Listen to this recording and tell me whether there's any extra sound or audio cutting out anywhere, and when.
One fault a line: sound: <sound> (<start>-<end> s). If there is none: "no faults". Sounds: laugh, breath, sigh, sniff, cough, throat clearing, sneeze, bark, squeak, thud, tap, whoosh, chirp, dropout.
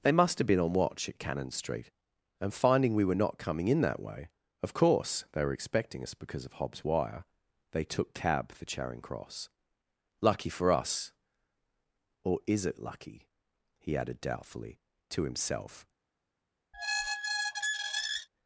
sound: squeak (16.7-18.3 s)